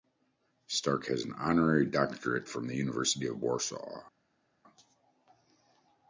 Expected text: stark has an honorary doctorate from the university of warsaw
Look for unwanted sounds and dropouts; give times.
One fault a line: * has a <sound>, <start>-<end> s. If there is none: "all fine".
all fine